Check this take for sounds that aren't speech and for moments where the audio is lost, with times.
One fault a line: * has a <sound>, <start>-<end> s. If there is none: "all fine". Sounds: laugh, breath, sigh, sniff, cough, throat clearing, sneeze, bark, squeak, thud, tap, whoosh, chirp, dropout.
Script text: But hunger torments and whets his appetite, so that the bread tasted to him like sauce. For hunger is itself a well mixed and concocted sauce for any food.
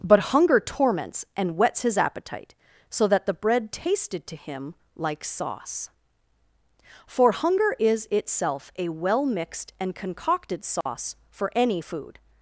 * has a dropout, 10.8-10.9 s